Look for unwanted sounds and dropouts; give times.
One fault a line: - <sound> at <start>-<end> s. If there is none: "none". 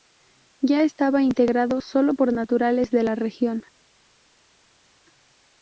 none